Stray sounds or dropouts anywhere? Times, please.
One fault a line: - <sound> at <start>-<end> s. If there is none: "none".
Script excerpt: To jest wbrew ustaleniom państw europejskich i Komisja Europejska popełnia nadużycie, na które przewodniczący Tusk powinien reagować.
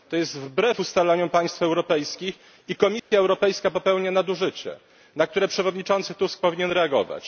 - dropout at 3.0-3.1 s